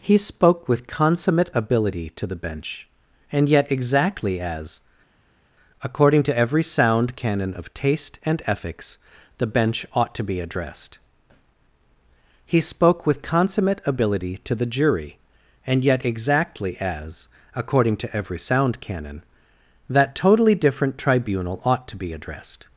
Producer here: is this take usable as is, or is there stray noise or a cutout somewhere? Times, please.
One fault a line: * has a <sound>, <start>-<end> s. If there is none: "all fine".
all fine